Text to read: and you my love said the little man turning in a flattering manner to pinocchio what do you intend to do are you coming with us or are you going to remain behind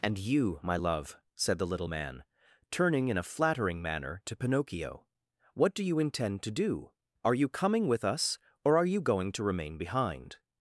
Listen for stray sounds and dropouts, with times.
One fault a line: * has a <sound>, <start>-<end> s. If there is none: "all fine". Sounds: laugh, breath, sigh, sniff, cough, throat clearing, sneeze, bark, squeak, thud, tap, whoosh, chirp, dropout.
all fine